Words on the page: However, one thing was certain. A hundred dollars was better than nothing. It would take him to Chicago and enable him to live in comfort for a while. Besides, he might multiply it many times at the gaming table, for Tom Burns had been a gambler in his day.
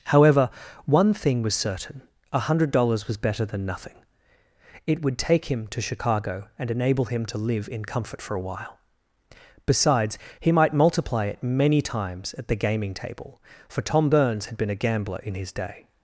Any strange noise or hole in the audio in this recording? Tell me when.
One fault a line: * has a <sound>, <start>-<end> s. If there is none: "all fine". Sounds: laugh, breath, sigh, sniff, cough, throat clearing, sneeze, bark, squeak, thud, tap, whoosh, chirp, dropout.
all fine